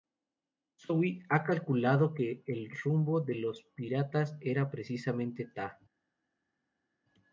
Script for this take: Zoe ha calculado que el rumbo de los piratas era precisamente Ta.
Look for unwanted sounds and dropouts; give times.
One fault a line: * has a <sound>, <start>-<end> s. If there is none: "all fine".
all fine